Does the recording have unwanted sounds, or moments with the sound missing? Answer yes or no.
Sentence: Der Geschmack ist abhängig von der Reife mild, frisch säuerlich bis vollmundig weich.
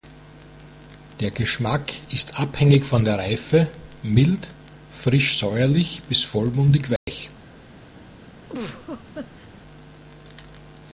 yes